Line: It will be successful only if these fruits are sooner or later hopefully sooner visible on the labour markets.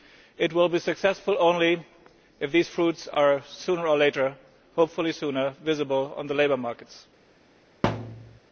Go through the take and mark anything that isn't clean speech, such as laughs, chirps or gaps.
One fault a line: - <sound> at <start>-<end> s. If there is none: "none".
- thud at 7.8-8.4 s